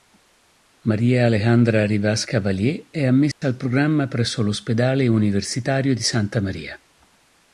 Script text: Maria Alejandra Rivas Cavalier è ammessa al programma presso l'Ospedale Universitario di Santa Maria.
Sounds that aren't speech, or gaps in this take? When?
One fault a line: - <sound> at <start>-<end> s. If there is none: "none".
- dropout at 3.3-3.4 s